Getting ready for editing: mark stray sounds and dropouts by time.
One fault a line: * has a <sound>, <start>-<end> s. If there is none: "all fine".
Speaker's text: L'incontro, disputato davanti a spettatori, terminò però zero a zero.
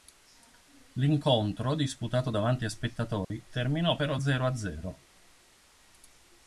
* has a dropout, 3.2-3.3 s